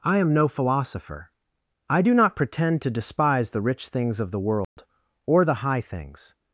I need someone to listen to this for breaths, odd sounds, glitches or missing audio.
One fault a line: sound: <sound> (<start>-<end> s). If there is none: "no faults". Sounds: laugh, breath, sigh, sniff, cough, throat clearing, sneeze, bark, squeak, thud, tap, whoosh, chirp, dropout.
sound: dropout (4.6-4.8 s)